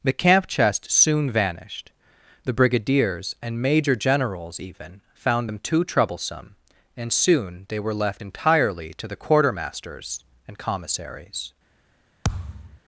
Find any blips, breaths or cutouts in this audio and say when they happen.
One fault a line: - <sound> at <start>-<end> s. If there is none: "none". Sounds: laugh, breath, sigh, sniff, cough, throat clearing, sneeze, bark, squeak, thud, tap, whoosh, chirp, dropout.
- thud at 12.2-12.8 s